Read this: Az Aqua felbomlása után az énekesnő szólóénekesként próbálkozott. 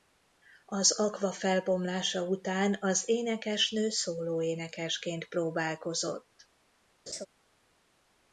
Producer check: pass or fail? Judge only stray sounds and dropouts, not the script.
fail